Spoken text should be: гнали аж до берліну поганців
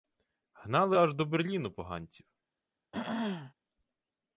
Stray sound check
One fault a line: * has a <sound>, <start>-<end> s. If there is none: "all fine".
* has a throat clearing, 2.9-3.5 s